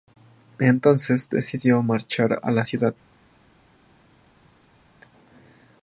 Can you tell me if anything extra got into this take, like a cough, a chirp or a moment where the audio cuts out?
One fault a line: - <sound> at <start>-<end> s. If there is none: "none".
none